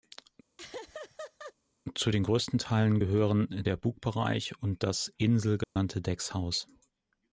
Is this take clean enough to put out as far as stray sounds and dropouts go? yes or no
no